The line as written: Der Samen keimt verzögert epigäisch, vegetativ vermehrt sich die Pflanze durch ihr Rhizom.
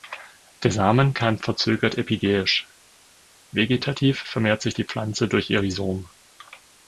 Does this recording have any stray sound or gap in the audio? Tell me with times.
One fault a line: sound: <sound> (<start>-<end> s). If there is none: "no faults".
no faults